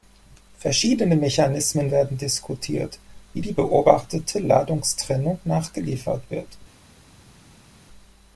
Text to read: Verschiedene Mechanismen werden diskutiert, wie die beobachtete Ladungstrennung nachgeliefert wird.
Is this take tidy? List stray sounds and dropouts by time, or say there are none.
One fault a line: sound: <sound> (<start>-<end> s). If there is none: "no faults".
no faults